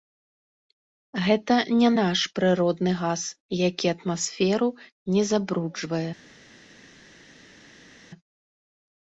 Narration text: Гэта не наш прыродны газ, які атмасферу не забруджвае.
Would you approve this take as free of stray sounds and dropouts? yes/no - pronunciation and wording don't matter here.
yes